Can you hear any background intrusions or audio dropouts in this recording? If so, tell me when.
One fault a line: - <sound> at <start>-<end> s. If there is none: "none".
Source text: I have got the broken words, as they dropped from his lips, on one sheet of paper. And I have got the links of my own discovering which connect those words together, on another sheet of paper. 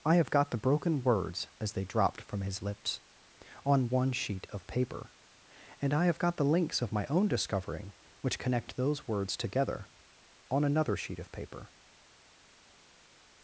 none